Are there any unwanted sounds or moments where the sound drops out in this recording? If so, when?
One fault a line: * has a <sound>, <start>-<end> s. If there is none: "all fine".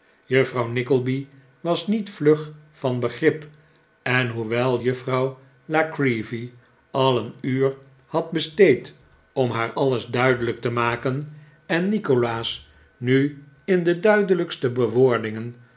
all fine